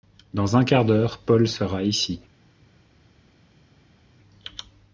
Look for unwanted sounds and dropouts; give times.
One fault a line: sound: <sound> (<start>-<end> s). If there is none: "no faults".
no faults